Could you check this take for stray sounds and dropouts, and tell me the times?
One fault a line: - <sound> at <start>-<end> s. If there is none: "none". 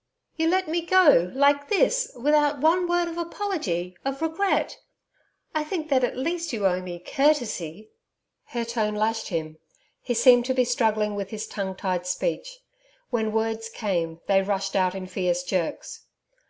none